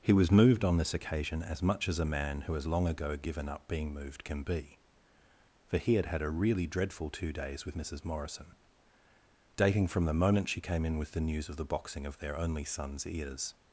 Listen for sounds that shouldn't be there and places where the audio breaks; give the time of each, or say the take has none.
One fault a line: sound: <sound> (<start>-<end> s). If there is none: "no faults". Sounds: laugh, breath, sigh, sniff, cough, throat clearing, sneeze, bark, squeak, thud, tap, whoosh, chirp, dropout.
no faults